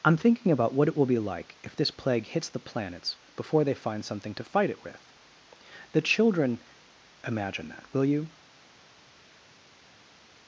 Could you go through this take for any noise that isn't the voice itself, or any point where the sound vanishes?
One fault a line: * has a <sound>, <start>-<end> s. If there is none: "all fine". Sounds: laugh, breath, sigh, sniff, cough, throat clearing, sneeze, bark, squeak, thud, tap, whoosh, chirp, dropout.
all fine